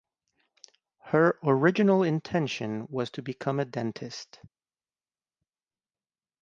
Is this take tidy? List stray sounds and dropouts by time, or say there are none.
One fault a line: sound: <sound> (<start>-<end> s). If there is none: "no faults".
no faults